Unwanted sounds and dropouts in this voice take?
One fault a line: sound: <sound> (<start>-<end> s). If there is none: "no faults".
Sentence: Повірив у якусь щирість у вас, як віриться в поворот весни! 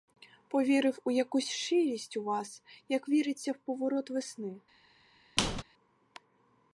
sound: squeak (5.4-5.6 s)